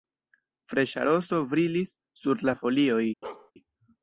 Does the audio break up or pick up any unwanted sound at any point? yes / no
yes